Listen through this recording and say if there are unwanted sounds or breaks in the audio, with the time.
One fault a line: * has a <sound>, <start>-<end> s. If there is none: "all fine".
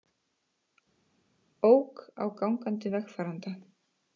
all fine